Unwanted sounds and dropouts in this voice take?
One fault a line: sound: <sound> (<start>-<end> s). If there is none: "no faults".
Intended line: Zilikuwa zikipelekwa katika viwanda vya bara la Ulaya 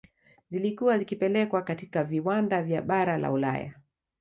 no faults